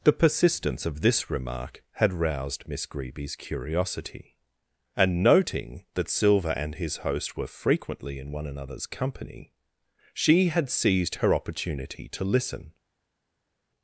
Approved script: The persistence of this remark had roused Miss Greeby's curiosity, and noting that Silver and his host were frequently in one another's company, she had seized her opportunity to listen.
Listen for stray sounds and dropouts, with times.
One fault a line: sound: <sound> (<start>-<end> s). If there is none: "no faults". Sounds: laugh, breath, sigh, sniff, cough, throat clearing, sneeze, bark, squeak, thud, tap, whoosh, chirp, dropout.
no faults